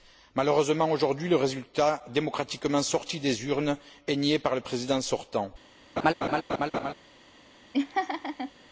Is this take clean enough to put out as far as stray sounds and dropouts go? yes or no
no